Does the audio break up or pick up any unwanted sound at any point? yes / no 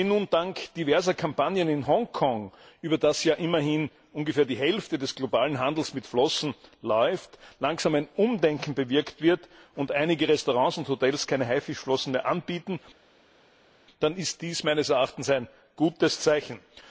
no